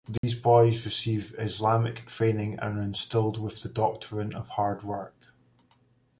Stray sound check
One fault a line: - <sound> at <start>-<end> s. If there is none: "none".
- dropout at 0.2-0.2 s